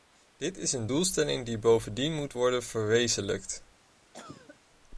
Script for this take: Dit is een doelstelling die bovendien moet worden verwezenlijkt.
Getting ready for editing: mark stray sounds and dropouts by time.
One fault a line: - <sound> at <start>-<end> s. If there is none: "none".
- cough at 4.1-4.6 s